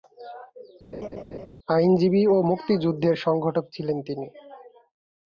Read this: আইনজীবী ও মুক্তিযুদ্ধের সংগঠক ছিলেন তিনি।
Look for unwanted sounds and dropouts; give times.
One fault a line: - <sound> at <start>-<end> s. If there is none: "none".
- laugh at 0.9-1.5 s